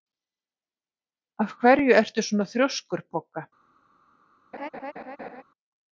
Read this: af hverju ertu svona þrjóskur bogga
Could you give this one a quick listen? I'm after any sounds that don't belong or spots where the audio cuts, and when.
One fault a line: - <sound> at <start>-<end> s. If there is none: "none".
- laugh at 4.5-5.4 s